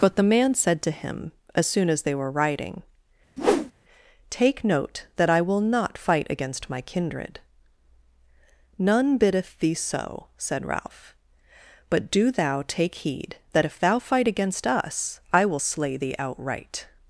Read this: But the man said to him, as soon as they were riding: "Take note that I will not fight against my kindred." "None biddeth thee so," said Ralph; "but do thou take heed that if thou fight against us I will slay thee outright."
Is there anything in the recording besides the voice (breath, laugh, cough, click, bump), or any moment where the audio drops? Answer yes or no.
yes